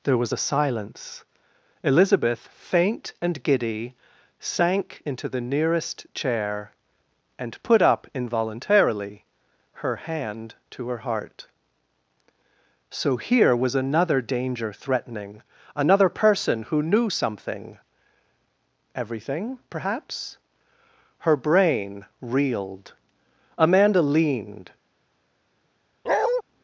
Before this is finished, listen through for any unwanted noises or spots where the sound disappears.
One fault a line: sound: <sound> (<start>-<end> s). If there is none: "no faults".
sound: bark (26.1-26.4 s)